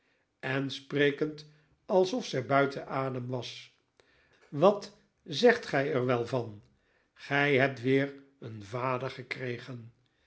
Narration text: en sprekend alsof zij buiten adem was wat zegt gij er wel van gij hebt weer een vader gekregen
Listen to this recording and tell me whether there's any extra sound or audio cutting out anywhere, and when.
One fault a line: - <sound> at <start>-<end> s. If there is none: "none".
none